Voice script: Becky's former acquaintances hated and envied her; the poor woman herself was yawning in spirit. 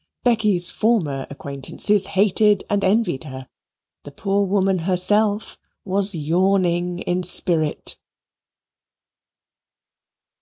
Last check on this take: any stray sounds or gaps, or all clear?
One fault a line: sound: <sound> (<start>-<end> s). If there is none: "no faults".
no faults